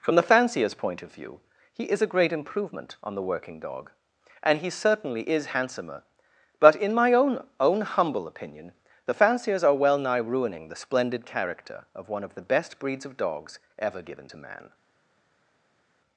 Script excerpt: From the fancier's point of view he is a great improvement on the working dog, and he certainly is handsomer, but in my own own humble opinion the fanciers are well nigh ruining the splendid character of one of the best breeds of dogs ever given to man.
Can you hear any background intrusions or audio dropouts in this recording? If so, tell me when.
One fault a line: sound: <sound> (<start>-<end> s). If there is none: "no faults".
no faults